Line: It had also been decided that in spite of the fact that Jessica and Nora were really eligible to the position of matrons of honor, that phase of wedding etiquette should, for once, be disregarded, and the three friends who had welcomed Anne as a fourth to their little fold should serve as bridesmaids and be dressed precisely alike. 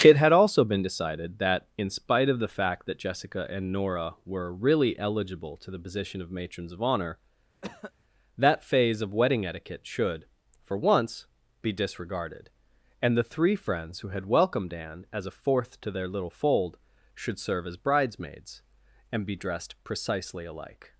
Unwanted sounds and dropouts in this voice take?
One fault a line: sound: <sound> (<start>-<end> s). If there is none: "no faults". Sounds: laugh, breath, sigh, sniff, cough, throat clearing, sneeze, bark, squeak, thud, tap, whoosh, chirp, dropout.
sound: cough (7.6-7.9 s)